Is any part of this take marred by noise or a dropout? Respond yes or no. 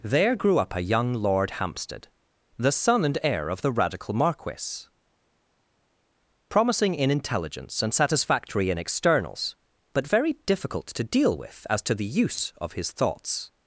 no